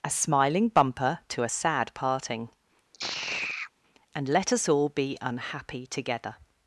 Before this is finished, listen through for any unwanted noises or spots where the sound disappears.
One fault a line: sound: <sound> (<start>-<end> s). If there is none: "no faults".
sound: sigh (2.9-3.7 s)